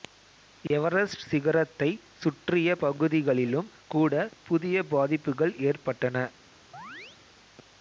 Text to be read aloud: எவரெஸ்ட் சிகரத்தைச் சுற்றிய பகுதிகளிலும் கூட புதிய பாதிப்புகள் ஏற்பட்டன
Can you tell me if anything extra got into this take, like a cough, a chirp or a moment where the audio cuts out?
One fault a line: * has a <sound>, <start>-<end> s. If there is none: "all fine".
* has a dropout, 0.7-0.7 s
* has a chirp, 6.7-7.2 s